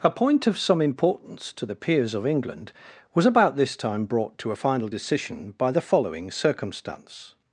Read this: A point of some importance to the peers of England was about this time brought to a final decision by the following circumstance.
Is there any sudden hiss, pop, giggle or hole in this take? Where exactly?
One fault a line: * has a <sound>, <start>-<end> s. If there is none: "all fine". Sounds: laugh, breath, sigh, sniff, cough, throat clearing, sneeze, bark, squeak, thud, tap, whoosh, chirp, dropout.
all fine